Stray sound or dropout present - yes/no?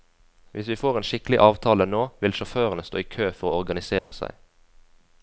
yes